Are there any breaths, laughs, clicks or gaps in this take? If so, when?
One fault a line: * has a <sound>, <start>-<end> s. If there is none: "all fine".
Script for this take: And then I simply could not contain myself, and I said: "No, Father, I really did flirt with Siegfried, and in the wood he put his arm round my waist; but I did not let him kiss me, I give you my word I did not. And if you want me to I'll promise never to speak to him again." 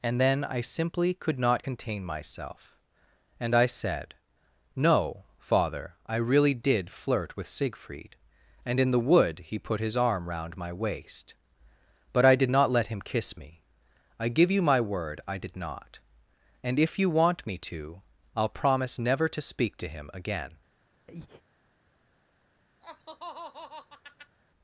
* has a breath, 21.1-21.4 s
* has a laugh, 22.8-24.4 s